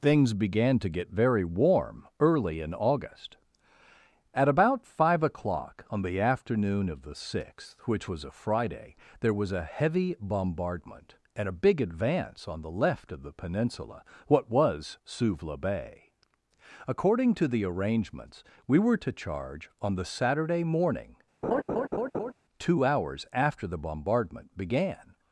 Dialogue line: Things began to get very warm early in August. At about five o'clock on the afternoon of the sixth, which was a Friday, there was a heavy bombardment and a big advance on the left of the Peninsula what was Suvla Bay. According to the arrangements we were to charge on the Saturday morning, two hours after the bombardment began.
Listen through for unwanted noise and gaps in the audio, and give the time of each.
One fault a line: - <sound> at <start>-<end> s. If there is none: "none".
- laugh at 21.4-22.3 s